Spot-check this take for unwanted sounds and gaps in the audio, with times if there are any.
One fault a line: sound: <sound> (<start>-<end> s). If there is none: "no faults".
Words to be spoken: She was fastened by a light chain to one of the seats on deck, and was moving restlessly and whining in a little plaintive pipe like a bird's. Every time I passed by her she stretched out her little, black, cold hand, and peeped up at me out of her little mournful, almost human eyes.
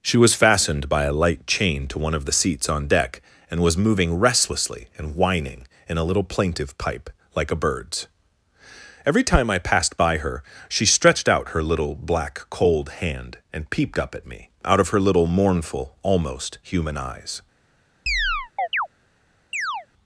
sound: chirp (18.1-18.9 s)
sound: chirp (19.5-19.9 s)